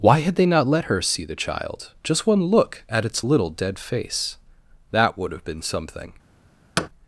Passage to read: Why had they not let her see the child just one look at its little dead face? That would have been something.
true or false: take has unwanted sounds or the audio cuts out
true